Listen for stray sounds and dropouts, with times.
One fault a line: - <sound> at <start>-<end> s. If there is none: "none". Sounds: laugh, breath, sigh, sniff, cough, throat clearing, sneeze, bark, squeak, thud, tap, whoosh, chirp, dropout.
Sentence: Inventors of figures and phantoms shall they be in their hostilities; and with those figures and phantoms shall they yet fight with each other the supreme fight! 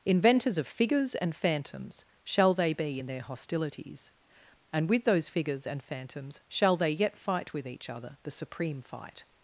none